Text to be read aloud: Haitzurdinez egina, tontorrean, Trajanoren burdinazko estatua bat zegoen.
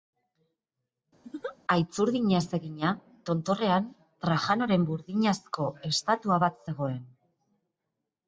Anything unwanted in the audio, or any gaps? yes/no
yes